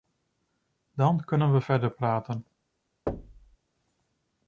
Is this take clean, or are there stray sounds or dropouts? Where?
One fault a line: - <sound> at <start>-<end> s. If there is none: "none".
- thud at 3.1-3.6 s